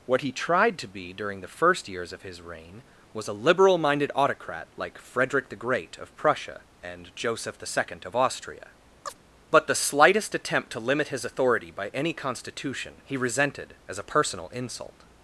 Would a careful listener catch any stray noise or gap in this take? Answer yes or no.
yes